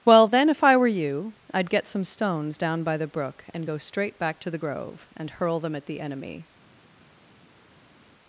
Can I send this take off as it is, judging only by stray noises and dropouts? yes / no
yes